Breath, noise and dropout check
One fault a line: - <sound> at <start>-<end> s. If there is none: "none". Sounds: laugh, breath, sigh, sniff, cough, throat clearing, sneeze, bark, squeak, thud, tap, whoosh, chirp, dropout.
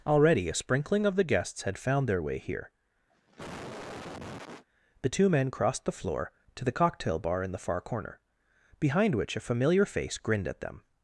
- cough at 3.1-4.6 s